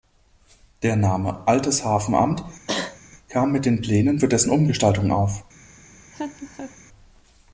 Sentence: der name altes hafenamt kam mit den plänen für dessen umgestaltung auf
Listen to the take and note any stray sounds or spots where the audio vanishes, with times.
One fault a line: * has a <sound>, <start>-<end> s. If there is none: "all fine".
* has a cough, 2.7-3.0 s
* has a laugh, 6.1-6.8 s